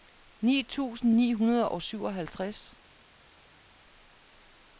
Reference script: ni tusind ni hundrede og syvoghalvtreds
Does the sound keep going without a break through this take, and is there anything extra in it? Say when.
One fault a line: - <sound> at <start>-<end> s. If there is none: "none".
none